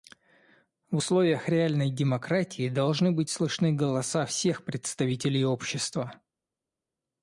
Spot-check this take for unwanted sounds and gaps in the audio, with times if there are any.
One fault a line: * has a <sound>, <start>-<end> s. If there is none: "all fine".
all fine